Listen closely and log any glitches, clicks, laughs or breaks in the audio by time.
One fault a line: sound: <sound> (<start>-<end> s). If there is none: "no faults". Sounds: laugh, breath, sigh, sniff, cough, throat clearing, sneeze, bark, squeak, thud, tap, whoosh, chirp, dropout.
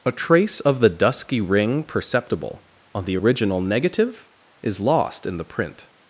no faults